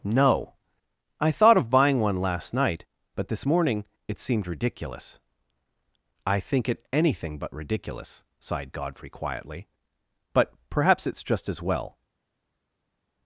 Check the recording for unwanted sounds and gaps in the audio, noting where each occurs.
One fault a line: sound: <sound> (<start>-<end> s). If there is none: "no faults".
no faults